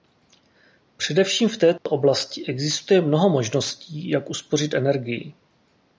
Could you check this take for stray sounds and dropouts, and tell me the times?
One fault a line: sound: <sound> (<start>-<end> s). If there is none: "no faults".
sound: dropout (1.8-1.9 s)